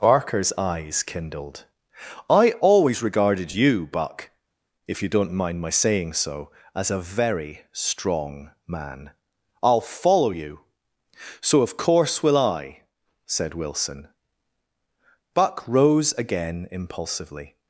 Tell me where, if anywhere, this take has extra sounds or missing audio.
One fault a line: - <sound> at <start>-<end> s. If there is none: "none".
none